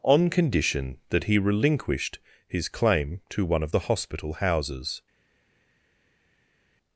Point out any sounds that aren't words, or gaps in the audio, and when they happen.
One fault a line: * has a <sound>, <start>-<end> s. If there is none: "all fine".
all fine